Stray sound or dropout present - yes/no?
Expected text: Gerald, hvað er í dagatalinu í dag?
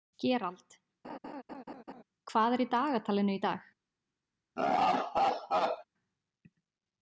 yes